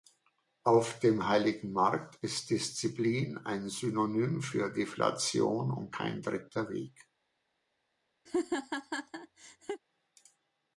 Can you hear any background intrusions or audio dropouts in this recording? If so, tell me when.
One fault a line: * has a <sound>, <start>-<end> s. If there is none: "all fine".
* has a laugh, 8.3-9.8 s